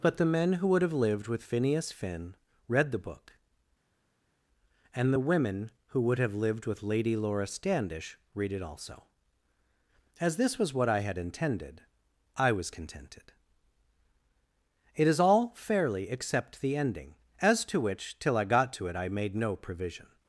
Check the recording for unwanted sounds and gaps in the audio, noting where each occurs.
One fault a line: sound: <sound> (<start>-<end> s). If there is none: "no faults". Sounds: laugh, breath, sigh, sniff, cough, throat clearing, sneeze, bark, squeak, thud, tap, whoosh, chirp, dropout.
no faults